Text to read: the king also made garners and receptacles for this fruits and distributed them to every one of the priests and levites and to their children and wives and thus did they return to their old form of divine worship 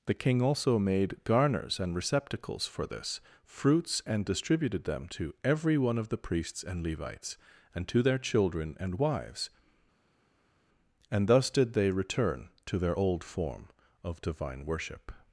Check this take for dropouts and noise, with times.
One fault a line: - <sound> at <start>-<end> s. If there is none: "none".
none